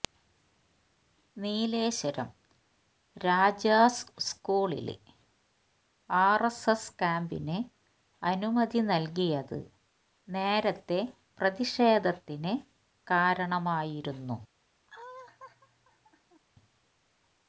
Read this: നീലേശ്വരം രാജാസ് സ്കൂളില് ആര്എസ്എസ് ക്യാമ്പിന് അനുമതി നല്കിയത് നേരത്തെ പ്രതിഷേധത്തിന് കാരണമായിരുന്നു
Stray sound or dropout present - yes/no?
yes